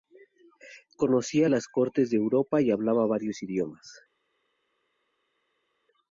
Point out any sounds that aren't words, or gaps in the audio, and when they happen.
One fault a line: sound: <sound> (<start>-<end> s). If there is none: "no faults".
no faults